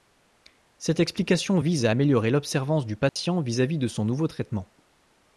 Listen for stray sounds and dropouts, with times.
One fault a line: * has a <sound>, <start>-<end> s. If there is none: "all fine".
* has a dropout, 3.1-3.2 s